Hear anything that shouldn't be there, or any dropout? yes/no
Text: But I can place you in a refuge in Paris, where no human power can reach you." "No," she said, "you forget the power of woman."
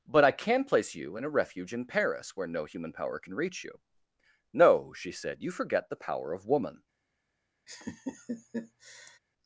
yes